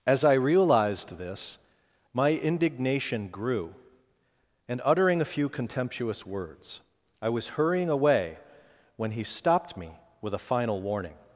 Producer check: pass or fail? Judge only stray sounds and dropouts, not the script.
pass